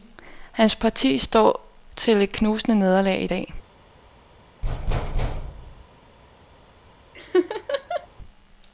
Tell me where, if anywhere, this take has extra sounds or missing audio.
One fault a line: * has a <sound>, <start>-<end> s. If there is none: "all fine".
* has a thud, 4.6-5.9 s
* has a laugh, 7.1-8.1 s